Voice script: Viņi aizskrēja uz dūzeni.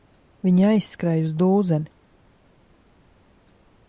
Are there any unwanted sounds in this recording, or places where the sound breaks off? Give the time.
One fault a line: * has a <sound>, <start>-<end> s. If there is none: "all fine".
all fine